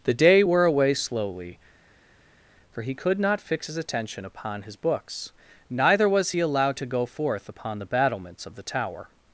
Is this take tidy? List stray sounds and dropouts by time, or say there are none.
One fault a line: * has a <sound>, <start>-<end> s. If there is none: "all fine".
all fine